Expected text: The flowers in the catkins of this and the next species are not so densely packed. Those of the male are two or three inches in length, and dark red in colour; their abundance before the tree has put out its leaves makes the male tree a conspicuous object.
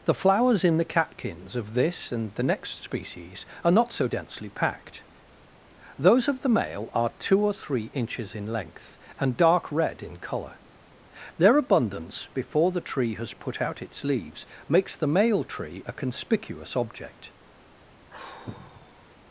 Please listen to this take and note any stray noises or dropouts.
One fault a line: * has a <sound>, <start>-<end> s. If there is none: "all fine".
* has a sigh, 18.1-19.2 s